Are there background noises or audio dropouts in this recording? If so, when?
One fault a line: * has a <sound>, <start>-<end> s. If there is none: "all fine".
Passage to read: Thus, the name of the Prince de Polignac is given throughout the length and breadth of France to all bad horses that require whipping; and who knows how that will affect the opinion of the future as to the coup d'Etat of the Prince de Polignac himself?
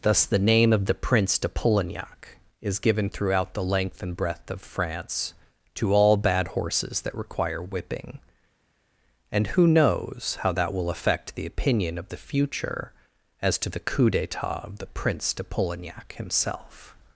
all fine